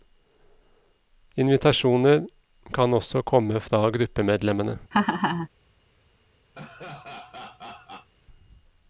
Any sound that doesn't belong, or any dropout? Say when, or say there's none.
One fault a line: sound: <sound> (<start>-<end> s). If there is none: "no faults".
sound: laugh (4.9-5.5 s)
sound: laugh (6.5-8.1 s)